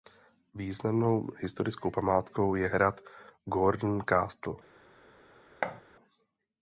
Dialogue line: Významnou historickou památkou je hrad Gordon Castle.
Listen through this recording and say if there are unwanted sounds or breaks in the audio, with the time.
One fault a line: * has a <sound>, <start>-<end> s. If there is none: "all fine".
* has a thud, 5.6-5.8 s